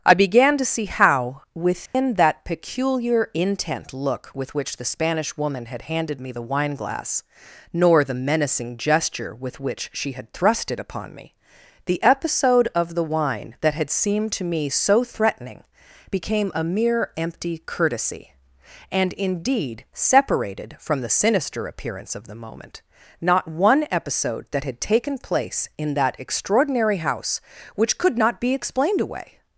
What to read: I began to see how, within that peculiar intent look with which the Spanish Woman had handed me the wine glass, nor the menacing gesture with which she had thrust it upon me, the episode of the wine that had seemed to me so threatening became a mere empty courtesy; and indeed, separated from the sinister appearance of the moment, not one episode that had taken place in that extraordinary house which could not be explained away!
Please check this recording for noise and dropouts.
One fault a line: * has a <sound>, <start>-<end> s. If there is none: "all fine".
* has a dropout, 1.9-1.9 s